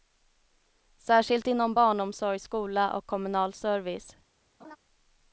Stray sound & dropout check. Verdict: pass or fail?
fail